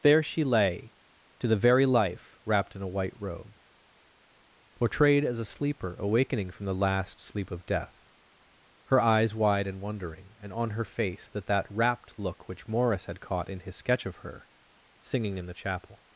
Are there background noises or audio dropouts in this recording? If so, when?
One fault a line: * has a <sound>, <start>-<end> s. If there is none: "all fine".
all fine